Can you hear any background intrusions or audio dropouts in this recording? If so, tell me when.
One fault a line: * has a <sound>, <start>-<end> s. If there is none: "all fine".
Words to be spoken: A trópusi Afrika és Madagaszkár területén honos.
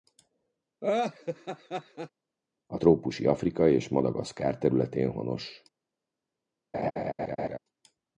* has a laugh, 0.8-2.1 s
* has a laugh, 6.7-7.6 s